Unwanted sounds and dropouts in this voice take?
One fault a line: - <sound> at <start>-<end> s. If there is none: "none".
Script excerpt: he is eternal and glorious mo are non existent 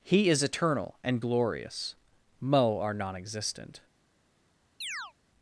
- chirp at 4.8-5.1 s